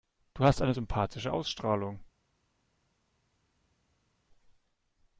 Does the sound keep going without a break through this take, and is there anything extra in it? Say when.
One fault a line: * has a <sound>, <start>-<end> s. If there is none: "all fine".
all fine